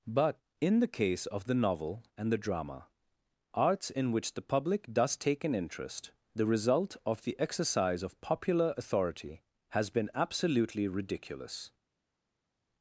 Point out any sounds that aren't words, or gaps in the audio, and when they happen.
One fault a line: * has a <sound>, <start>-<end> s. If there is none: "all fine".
all fine